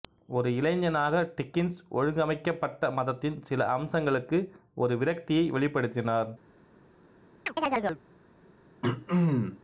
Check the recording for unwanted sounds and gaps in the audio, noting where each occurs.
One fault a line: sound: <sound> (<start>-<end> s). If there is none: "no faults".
sound: chirp (7.5-8.0 s)
sound: throat clearing (8.8-9.6 s)